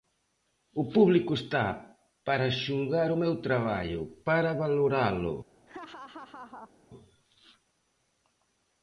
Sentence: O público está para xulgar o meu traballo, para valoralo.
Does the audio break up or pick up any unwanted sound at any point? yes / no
yes